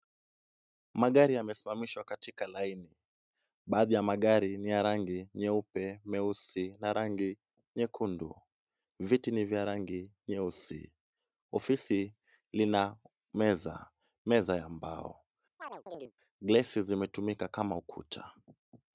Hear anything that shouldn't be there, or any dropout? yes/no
yes